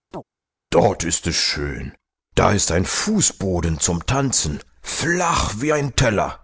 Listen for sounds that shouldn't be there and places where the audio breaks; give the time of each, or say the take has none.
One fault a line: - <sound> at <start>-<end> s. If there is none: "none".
- chirp at 0.1-0.2 s